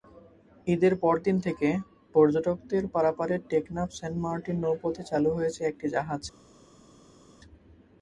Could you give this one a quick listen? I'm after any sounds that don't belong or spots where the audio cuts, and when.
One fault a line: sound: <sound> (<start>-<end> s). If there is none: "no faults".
no faults